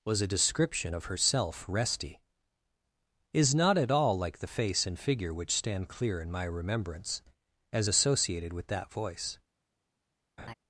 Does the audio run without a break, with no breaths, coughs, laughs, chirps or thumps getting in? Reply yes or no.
no